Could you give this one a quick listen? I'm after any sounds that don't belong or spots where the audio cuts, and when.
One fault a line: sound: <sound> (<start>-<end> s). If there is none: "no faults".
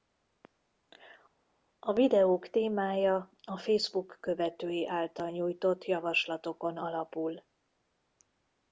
no faults